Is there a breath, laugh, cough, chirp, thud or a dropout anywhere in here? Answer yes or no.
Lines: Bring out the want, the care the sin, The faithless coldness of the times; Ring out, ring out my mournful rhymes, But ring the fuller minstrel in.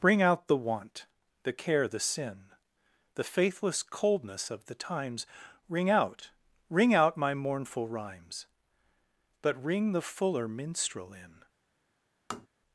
yes